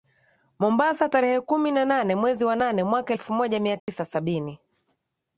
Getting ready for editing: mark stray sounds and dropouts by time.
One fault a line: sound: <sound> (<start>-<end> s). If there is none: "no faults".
sound: dropout (3.8-3.9 s)